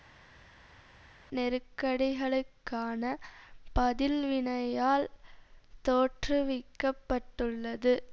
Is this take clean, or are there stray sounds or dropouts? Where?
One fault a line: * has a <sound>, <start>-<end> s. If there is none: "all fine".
all fine